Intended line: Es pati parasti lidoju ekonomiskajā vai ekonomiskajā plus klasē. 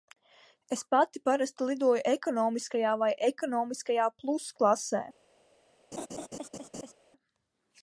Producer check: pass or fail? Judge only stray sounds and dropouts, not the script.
fail